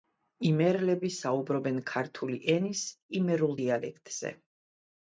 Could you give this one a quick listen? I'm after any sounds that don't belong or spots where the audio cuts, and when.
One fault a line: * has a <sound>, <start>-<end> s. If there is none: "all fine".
all fine